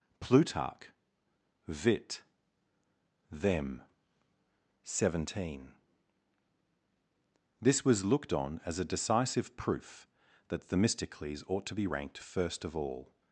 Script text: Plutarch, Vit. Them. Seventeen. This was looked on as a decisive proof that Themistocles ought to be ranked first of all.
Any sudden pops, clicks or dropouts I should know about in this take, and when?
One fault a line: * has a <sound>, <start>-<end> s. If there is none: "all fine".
all fine